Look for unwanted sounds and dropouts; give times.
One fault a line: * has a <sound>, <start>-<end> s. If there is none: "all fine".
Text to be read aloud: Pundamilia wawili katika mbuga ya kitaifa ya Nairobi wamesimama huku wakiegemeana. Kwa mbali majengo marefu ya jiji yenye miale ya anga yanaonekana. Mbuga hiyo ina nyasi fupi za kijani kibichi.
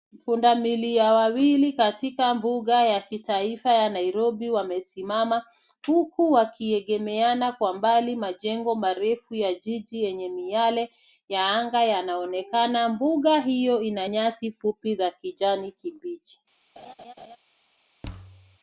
* has a laugh, 16.8-17.4 s
* has a thud, 18.0-18.6 s